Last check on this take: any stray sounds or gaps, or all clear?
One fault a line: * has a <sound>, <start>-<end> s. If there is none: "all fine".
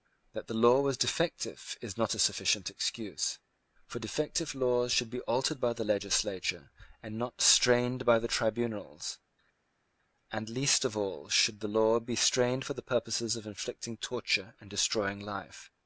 all fine